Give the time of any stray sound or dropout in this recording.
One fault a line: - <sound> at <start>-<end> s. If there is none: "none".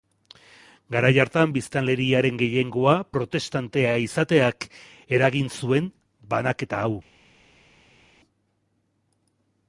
none